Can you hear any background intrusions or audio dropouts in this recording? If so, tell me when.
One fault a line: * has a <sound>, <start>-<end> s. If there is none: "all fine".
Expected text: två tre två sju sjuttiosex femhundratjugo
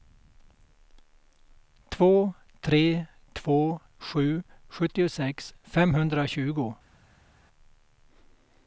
all fine